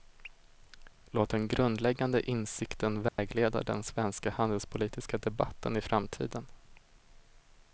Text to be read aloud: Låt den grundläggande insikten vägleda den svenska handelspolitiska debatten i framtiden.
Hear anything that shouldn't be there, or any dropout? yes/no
yes